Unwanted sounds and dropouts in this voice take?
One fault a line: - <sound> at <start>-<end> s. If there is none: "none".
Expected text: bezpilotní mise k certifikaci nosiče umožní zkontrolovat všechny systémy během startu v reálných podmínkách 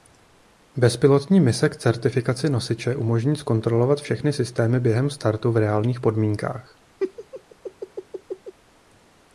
- laugh at 7.0-8.5 s